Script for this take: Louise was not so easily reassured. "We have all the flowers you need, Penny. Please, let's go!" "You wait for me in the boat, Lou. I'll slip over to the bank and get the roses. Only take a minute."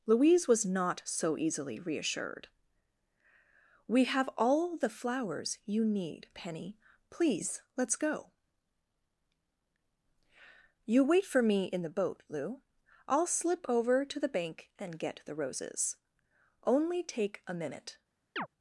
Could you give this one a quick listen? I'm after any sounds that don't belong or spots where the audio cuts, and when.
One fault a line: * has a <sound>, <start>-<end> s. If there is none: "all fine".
* has a chirp, 18.4-18.5 s